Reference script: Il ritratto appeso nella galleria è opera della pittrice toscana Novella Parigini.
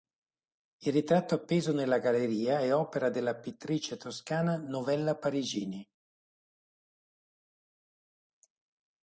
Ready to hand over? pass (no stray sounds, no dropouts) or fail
pass